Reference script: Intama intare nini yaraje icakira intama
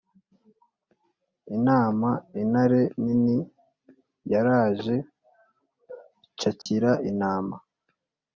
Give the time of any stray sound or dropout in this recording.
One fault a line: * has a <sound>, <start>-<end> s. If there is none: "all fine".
* has a dropout, 6.6-6.7 s